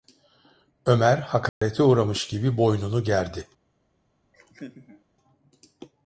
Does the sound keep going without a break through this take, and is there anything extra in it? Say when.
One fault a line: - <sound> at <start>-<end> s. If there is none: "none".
- dropout at 1.5-1.6 s
- laugh at 4.3-5.0 s